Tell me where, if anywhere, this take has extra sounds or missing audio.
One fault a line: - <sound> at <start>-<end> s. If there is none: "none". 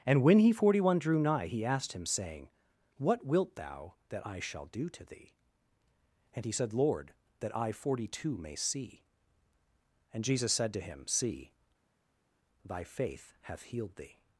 none